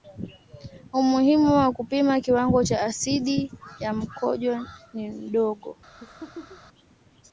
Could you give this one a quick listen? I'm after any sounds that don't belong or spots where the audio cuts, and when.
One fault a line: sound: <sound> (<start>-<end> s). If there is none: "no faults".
sound: laugh (6.0-6.6 s)